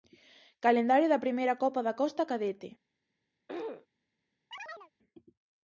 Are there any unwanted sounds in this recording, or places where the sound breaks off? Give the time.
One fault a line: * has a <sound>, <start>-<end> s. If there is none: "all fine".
* has a throat clearing, 3.5-3.9 s
* has a chirp, 4.5-4.9 s